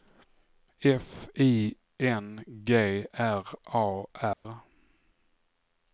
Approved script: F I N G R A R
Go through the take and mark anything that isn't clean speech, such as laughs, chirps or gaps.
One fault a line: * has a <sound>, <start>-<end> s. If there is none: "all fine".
* has a dropout, 4.3-4.4 s